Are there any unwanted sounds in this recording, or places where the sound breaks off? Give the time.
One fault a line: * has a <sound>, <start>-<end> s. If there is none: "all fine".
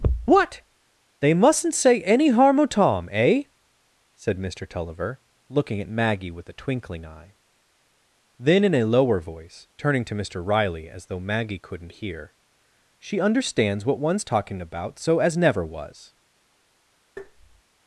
* has a tap, 17.2-17.6 s